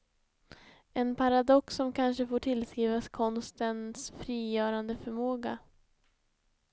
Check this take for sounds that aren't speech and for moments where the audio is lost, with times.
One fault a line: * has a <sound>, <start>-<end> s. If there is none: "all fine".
all fine